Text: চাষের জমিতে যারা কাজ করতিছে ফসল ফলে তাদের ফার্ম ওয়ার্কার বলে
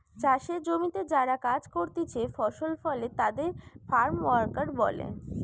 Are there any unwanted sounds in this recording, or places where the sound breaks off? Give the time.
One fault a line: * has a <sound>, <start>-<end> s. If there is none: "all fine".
all fine